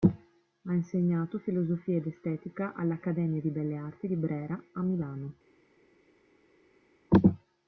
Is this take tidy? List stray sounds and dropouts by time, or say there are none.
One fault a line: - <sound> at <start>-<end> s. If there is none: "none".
none